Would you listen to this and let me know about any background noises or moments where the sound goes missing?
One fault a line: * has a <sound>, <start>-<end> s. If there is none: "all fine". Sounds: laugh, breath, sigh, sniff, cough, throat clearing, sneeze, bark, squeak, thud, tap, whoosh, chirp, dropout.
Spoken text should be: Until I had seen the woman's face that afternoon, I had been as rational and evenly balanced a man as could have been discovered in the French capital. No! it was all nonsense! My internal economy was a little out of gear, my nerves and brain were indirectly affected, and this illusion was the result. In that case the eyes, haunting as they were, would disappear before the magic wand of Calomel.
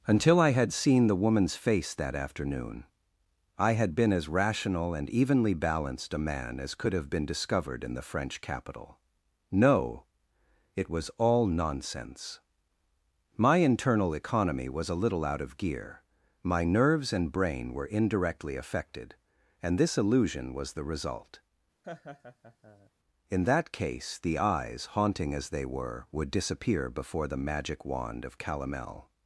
* has a laugh, 21.8-22.9 s